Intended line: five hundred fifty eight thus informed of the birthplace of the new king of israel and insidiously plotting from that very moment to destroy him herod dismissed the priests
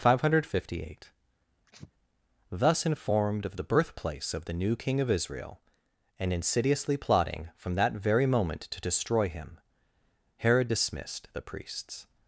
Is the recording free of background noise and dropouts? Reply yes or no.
no